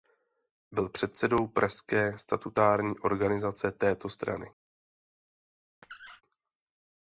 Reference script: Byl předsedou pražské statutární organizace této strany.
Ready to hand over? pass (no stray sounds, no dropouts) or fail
fail